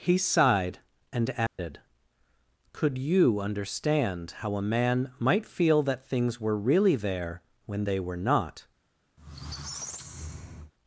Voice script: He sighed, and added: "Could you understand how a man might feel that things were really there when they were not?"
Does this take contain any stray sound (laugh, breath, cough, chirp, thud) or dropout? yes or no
yes